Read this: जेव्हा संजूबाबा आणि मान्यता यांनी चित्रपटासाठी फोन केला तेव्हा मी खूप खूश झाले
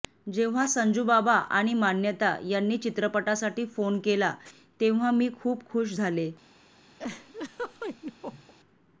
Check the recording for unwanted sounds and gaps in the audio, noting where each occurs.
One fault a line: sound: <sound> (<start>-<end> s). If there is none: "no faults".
sound: laugh (7.0-8.5 s)